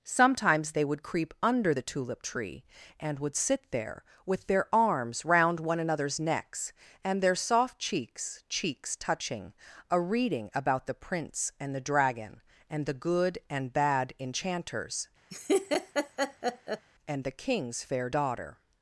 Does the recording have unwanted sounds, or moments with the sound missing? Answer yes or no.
yes